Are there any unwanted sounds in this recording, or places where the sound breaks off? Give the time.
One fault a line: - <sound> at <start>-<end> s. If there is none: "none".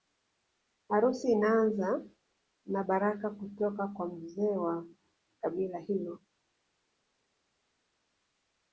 none